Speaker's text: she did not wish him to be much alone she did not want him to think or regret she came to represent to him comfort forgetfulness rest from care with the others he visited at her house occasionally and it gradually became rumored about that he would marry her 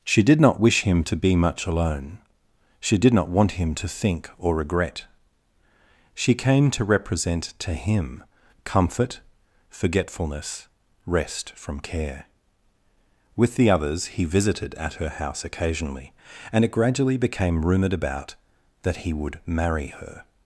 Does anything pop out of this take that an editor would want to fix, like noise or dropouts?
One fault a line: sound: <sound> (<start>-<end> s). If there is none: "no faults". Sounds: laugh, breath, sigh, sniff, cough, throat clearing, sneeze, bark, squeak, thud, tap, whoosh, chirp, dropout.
no faults